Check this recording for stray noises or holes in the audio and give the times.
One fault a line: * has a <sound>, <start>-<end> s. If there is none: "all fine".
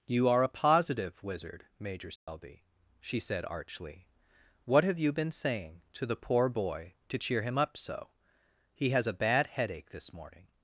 * has a dropout, 2.2-2.3 s